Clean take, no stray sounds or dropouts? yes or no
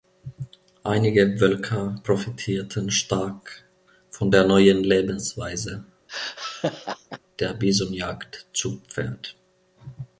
no